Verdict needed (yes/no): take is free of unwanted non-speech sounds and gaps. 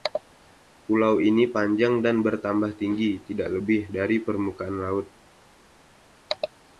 yes